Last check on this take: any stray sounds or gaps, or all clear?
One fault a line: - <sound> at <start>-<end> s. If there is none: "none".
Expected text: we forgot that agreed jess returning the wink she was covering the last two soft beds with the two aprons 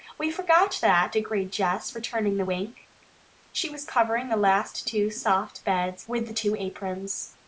none